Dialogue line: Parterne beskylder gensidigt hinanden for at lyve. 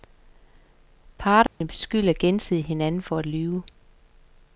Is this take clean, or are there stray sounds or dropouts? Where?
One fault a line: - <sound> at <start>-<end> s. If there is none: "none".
- dropout at 1.5-1.6 s